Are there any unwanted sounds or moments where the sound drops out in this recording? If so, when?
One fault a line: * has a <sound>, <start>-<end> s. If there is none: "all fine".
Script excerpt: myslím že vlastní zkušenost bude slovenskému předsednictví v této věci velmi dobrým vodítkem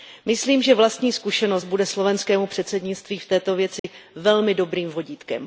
* has a dropout, 3.8-3.8 s